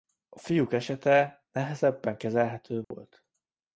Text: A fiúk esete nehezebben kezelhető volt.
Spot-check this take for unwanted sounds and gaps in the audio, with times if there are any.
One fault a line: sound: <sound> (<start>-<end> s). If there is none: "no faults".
sound: dropout (2.8-2.9 s)